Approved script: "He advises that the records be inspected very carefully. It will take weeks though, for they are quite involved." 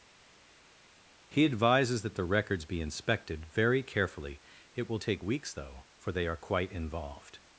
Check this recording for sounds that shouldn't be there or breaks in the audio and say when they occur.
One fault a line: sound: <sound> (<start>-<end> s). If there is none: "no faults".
no faults